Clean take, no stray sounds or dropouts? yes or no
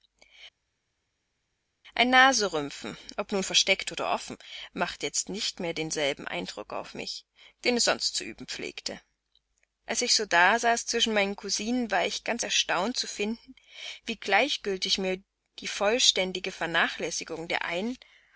yes